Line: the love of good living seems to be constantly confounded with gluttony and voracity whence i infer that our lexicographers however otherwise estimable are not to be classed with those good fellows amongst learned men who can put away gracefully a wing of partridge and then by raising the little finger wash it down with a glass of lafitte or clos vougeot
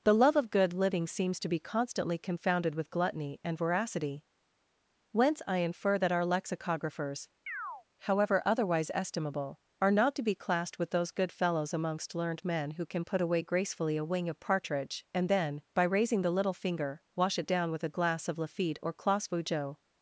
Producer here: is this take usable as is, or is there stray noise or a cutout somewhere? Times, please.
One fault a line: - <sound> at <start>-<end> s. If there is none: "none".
- chirp at 7.5-7.8 s